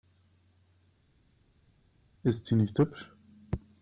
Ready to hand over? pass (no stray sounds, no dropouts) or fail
pass